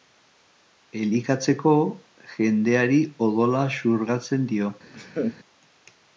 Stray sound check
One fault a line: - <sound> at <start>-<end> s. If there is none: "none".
- laugh at 4.9-5.4 s